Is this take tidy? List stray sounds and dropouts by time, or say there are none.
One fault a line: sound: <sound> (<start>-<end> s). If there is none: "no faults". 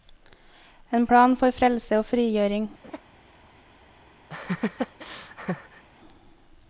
sound: laugh (2.8-3.0 s)
sound: laugh (4.3-5.8 s)